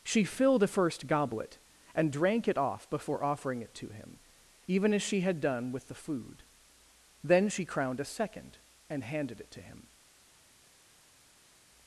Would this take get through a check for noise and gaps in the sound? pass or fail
pass